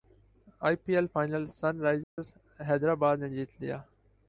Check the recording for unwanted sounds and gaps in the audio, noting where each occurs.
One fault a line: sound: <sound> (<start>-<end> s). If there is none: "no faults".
sound: dropout (2.0-2.2 s)